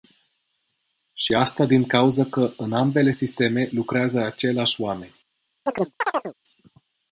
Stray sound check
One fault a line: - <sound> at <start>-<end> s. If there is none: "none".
- chirp at 5.7-6.3 s